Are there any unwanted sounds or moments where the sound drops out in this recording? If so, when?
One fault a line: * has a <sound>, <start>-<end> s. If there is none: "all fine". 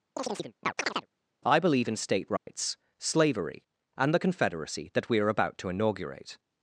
* has a chirp, 0.2-1.1 s
* has a dropout, 2.4-2.5 s